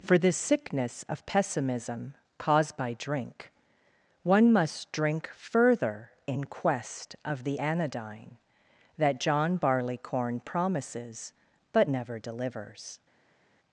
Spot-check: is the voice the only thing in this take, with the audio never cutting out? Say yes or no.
yes